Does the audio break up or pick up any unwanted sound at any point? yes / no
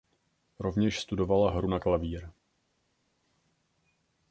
no